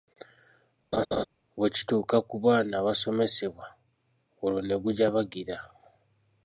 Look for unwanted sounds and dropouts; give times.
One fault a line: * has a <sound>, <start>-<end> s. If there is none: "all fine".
* has a laugh, 0.9-1.2 s